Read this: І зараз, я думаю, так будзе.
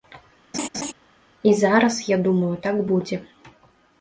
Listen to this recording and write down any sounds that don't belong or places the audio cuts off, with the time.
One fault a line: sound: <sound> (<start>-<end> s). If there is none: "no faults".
sound: laugh (0.5-0.9 s)